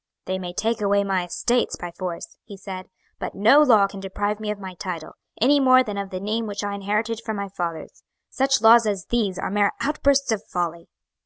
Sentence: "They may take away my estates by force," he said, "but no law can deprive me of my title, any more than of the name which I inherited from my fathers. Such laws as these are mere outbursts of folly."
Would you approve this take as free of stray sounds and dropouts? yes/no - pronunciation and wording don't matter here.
yes